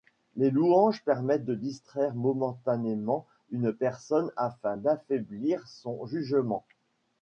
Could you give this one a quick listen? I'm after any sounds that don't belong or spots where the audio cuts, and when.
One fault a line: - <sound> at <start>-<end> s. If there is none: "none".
none